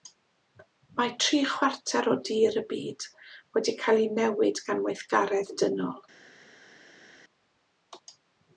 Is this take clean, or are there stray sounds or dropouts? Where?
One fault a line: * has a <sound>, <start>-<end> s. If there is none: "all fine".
all fine